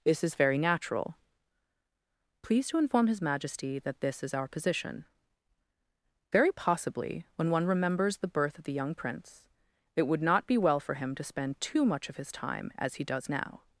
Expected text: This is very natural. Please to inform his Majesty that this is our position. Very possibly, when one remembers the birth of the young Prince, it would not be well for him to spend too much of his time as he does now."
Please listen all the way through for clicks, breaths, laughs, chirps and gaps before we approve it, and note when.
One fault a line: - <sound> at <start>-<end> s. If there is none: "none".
none